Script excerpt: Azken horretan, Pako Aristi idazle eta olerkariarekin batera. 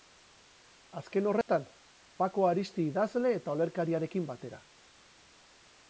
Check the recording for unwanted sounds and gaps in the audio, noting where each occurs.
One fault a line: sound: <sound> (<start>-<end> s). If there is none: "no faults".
sound: dropout (1.4-1.5 s)